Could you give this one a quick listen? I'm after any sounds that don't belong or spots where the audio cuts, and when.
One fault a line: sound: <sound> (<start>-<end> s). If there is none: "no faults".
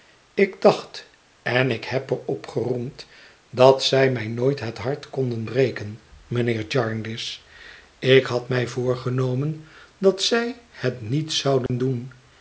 sound: dropout (11.7-11.7 s)